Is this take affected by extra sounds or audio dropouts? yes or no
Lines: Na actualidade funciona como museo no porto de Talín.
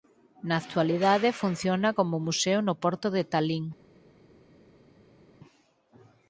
no